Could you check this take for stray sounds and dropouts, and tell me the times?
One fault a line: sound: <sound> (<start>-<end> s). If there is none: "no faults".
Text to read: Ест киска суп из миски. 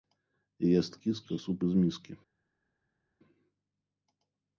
no faults